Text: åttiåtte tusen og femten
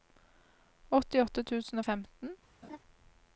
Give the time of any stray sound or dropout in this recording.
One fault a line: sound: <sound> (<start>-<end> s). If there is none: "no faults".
sound: laugh (2.6-2.8 s)